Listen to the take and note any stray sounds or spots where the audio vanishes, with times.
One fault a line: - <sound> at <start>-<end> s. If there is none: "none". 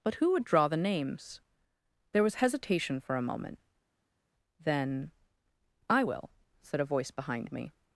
none